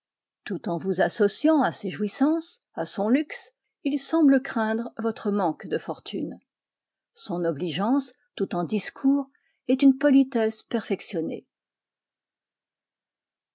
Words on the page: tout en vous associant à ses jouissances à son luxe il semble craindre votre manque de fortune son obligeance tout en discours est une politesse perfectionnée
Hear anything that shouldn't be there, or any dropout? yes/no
no